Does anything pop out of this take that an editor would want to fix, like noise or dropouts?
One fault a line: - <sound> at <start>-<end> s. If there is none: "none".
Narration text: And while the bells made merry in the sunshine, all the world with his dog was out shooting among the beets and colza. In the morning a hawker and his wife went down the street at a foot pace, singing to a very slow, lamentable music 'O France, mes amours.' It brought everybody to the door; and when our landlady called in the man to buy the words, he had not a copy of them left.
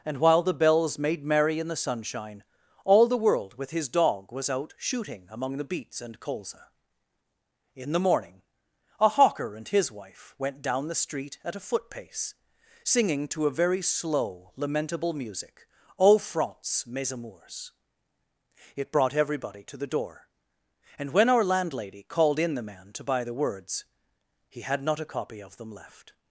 none